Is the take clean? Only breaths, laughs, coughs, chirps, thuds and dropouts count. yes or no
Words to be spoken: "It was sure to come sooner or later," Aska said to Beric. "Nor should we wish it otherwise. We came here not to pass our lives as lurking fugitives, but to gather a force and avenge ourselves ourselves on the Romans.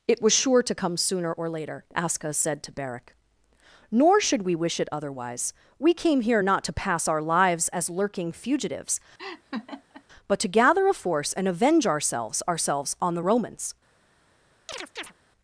no